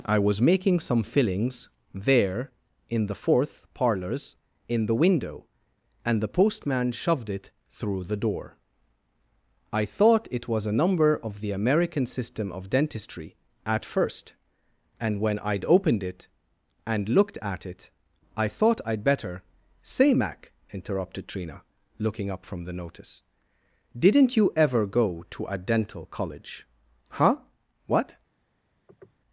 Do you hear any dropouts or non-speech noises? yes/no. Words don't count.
yes